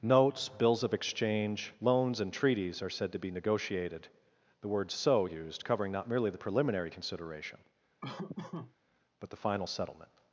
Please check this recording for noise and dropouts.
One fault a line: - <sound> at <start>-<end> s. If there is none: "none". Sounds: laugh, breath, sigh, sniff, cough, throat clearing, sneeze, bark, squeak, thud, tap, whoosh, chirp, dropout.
- laugh at 8.0-8.7 s